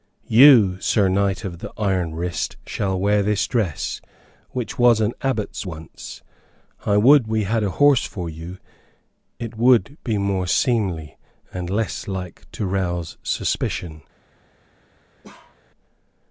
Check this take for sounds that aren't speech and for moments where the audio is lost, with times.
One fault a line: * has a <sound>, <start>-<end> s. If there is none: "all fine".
* has a bark, 15.2-15.6 s